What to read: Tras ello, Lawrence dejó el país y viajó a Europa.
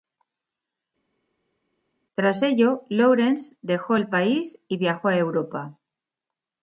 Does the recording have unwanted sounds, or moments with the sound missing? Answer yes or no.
no